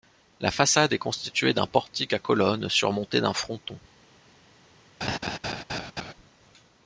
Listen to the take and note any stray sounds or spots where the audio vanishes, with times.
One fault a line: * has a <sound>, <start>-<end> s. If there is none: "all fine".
* has a laugh, 5.0-6.1 s